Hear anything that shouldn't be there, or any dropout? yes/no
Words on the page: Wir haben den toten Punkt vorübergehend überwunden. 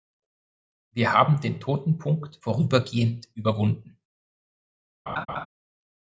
yes